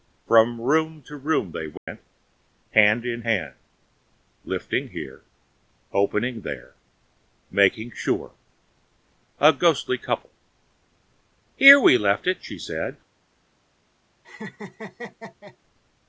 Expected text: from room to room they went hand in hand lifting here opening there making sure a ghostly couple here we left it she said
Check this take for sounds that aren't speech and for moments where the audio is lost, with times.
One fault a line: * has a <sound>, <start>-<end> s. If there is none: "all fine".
* has a dropout, 1.8-1.9 s
* has a laugh, 14.2-15.6 s